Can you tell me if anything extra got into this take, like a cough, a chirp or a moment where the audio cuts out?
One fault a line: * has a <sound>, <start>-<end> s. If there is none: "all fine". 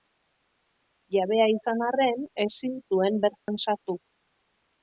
* has a dropout, 3.4-3.5 s